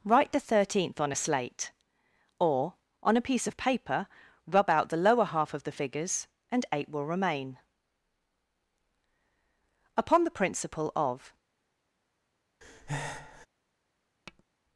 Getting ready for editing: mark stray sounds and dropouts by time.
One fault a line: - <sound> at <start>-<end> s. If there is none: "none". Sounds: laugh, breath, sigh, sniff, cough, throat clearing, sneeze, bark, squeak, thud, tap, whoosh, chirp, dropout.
- breath at 12.6-13.5 s
- tap at 14.3-14.4 s